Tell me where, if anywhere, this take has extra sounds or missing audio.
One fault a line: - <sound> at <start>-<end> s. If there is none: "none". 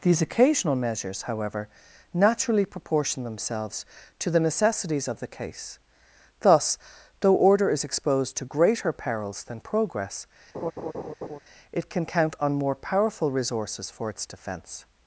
- laugh at 10.5-11.4 s